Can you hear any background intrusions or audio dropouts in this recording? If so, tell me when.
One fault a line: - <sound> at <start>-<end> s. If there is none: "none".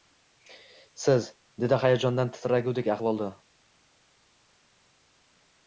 none